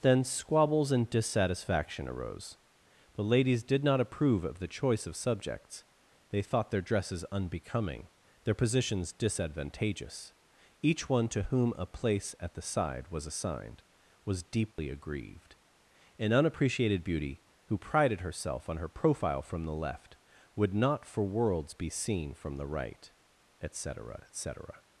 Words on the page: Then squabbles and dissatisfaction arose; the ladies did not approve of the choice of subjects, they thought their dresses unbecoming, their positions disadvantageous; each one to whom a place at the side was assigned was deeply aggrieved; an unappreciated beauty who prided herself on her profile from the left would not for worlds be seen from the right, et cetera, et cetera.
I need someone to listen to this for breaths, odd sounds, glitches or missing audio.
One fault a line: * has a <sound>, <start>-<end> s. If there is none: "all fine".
* has a dropout, 14.7-14.8 s